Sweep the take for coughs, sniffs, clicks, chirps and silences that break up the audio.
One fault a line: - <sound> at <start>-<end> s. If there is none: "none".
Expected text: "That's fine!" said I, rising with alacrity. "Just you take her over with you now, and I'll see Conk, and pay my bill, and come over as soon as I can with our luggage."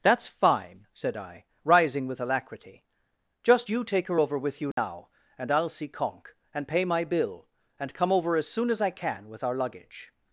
- dropout at 4.7-4.8 s